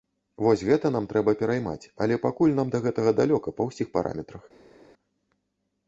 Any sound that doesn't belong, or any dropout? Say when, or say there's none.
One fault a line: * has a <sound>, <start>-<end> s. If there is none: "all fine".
all fine